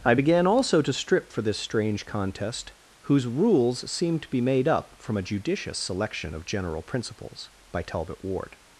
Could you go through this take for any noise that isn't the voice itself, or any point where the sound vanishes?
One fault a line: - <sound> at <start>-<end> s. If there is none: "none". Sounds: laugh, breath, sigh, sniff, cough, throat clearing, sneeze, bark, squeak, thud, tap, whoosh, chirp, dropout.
none